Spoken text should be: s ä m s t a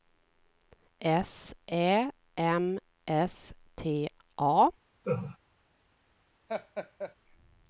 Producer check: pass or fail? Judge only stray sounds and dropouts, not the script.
fail